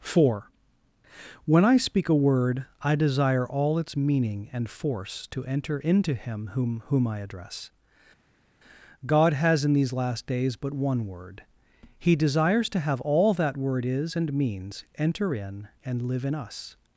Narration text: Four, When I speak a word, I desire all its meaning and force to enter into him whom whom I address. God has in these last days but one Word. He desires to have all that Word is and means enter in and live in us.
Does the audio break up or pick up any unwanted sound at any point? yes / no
no